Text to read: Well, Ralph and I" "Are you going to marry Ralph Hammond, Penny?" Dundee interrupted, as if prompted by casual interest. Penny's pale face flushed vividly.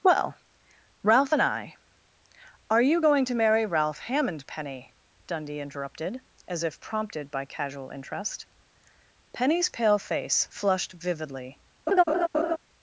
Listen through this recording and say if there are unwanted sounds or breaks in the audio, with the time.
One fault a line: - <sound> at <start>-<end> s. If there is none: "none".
- laugh at 11.9-12.6 s